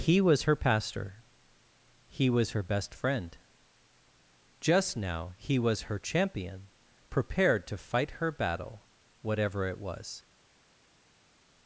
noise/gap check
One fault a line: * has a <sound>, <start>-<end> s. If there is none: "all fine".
all fine